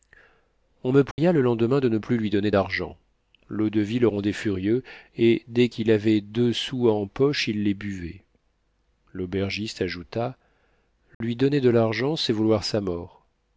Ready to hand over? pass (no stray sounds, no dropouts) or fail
fail